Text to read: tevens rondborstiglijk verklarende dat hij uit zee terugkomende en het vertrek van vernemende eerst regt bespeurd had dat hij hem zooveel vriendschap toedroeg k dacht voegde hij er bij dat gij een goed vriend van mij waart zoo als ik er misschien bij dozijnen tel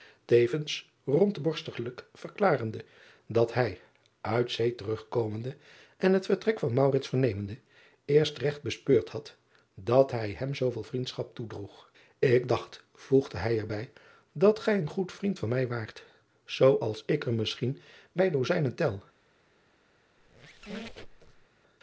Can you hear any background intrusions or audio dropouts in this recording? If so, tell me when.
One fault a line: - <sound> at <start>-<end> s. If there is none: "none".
- squeak at 20.2-21.5 s